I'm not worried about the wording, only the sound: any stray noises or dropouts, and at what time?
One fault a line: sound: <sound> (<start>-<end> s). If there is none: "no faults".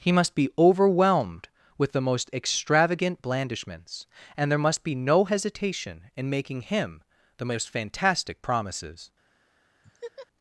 sound: laugh (9.8-10.3 s)